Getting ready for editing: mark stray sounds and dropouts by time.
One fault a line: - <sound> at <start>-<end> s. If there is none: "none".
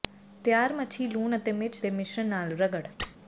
- squeak at 3.0-3.2 s